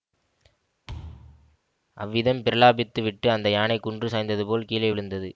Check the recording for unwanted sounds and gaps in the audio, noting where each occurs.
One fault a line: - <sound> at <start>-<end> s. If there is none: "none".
- thud at 0.9-1.6 s